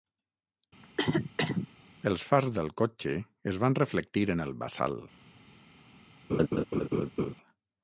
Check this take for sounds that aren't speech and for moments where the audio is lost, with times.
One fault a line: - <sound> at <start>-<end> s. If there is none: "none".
- cough at 0.8-1.7 s
- laugh at 6.3-7.3 s